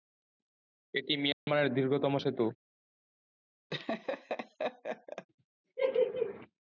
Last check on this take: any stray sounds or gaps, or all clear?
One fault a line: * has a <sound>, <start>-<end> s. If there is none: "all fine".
* has a dropout, 1.3-1.5 s
* has a laugh, 3.7-5.3 s